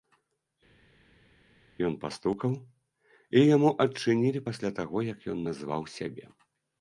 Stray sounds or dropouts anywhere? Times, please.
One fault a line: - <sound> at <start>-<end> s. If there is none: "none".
none